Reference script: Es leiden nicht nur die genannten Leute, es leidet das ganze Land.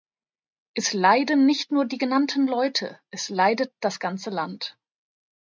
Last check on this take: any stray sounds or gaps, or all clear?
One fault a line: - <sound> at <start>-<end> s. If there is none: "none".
none